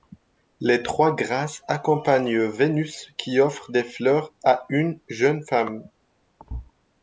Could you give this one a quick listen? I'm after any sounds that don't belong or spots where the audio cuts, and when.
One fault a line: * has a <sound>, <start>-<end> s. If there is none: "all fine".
* has a thud, 6.4-6.7 s